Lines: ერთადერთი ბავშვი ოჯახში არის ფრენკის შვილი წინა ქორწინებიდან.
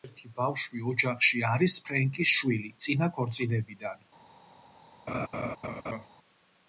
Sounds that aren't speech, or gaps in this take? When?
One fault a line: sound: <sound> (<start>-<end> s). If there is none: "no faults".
sound: laugh (5.1-6.1 s)